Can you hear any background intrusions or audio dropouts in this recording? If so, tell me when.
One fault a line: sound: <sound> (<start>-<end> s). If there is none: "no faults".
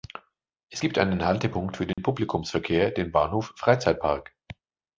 sound: dropout (1.9-2.0 s)